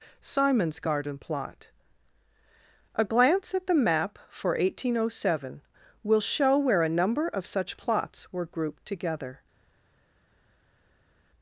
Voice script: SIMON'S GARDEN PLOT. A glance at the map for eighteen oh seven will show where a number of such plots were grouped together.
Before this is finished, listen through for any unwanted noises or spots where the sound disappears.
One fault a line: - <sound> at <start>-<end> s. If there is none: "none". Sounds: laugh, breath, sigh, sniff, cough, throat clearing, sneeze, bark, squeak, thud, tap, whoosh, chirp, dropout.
none